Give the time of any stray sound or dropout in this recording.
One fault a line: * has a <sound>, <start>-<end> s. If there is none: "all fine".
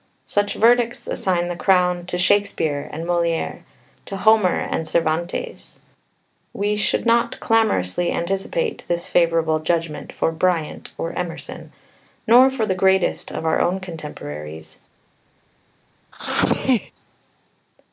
* has a sneeze, 16.1-16.9 s